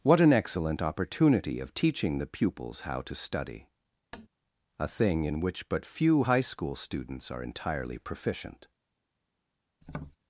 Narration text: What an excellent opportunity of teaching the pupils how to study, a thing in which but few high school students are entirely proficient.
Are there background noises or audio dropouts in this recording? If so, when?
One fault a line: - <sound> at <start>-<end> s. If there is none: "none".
- tap at 4.1-4.3 s
- tap at 9.8-10.2 s